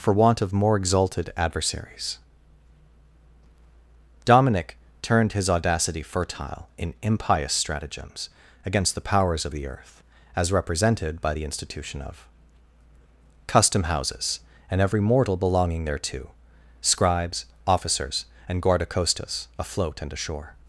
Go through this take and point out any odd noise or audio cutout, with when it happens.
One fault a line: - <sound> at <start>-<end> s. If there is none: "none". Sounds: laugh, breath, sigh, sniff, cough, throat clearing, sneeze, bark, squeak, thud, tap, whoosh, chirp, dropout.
none